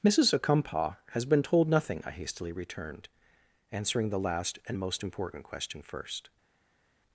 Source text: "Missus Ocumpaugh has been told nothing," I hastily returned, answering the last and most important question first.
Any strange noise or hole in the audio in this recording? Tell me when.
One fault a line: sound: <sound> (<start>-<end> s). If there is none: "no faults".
no faults